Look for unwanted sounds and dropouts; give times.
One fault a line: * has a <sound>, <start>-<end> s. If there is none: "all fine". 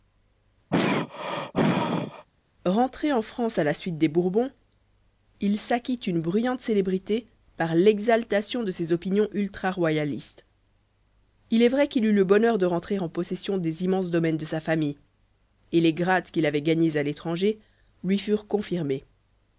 * has a throat clearing, 0.7-2.3 s